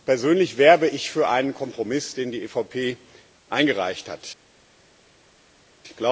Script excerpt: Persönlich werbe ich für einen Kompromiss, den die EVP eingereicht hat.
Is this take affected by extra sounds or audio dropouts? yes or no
no